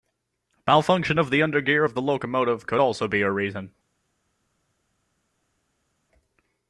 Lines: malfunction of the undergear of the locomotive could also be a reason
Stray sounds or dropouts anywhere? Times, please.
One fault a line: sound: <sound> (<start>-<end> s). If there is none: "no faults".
no faults